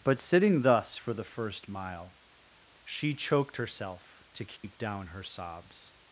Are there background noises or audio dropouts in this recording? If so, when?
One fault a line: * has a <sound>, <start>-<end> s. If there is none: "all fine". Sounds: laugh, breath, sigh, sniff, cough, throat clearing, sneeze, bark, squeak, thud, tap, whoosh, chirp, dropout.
* has a dropout, 4.6-4.6 s